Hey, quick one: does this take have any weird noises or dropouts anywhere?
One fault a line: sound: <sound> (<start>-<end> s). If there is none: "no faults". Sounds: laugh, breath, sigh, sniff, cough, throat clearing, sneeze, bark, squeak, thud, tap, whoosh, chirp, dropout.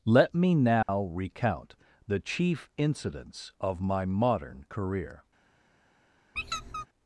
sound: dropout (0.8-0.9 s)
sound: squeak (6.3-6.9 s)